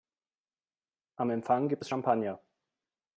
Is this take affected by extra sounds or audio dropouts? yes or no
no